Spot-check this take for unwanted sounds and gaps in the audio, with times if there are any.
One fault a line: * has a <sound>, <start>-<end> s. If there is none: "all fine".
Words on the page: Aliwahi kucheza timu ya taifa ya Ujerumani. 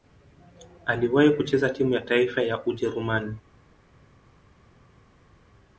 all fine